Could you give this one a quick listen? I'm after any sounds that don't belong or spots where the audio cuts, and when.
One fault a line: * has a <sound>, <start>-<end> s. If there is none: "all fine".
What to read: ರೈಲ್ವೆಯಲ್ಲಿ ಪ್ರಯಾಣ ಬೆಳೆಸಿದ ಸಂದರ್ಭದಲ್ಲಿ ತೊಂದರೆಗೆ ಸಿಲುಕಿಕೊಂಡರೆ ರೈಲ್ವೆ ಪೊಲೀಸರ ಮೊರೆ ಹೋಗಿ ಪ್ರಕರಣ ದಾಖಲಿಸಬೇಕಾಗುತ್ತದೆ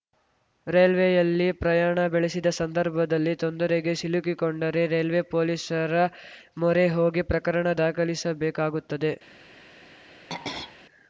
* has a throat clearing, 10.3-10.8 s